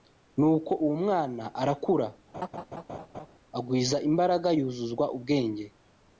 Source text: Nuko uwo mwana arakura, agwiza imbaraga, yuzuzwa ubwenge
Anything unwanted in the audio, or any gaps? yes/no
yes